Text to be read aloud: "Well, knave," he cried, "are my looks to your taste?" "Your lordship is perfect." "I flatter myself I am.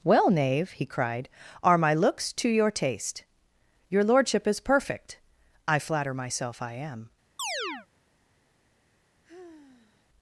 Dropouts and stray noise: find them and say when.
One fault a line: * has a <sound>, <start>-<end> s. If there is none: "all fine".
* has a chirp, 7.4-7.9 s
* has a sigh, 9.2-10.0 s